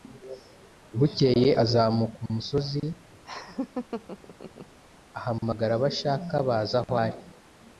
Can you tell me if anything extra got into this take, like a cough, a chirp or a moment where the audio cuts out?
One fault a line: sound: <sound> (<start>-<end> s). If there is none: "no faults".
sound: laugh (3.2-4.8 s)